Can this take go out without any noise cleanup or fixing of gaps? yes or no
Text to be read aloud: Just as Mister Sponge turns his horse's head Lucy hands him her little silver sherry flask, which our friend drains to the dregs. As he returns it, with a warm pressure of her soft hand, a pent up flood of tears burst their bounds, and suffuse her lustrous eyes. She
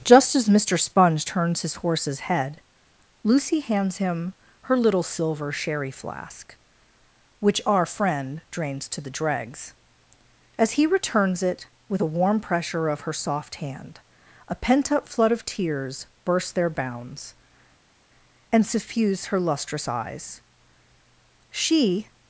yes